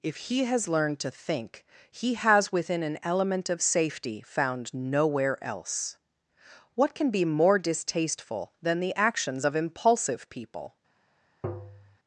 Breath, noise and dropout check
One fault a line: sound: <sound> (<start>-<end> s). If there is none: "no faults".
sound: tap (11.4-12.0 s)